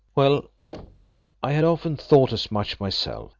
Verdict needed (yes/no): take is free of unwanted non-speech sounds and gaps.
no